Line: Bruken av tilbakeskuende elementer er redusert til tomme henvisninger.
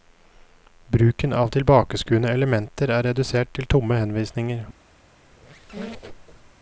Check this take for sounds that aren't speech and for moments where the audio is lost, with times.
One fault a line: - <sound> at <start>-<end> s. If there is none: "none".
- squeak at 5.3-6.5 s